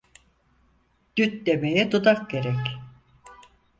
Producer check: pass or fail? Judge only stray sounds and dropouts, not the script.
pass